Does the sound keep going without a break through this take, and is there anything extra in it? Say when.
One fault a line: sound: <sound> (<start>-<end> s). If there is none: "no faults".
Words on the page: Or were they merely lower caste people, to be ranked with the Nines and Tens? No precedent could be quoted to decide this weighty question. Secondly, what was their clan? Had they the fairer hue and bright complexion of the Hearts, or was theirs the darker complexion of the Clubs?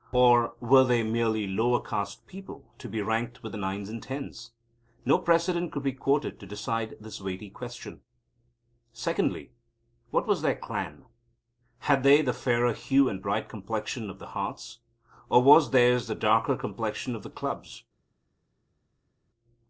no faults